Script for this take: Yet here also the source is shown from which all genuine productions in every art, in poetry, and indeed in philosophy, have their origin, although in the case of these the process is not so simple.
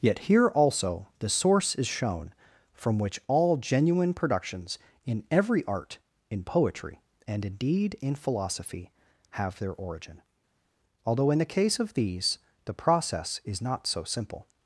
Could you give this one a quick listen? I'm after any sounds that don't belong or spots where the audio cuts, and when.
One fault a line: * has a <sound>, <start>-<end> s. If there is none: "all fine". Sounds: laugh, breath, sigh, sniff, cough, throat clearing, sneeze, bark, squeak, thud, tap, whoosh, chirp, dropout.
all fine